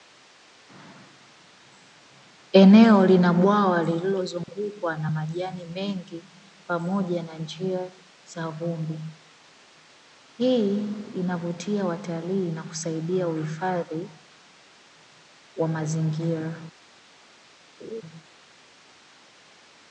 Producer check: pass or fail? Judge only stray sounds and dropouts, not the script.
fail